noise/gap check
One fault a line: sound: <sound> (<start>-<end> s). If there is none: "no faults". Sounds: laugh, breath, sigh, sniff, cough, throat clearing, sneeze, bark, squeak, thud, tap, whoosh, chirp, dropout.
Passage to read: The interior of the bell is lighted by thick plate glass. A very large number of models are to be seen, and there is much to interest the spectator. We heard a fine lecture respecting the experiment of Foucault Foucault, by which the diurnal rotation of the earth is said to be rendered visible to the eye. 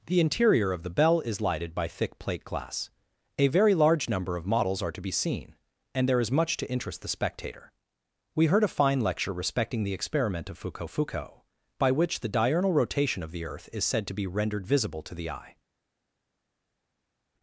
no faults